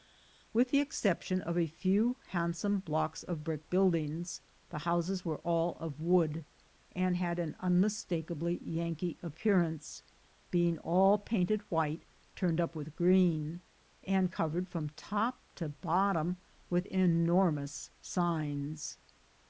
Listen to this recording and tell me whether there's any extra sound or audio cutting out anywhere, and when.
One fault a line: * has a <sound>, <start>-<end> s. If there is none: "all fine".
all fine